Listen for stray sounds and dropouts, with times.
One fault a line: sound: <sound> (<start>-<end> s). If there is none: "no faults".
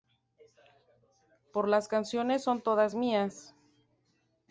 no faults